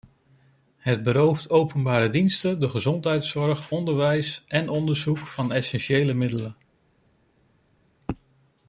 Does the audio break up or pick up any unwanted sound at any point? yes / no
no